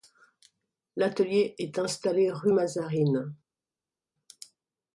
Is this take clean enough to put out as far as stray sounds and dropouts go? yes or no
yes